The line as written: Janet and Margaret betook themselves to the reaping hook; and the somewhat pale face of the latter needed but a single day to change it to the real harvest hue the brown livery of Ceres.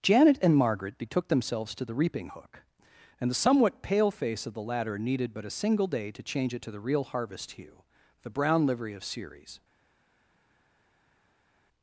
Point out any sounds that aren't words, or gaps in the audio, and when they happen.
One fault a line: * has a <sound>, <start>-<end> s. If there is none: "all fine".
all fine